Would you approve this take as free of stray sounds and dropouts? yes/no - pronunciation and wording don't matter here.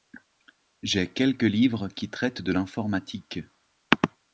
yes